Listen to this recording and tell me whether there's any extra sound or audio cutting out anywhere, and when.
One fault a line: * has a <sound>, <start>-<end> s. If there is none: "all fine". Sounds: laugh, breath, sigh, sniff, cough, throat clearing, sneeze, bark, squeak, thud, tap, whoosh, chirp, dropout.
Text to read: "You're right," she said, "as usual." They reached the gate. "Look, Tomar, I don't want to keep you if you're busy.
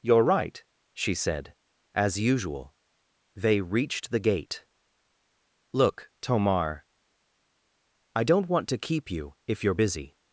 all fine